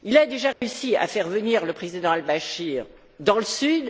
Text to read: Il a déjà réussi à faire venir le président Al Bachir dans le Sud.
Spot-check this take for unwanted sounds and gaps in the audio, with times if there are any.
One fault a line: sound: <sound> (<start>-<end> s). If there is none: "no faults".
sound: dropout (0.5-0.6 s)